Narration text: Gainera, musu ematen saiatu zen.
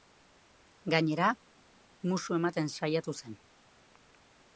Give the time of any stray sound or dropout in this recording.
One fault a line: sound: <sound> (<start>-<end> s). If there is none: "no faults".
no faults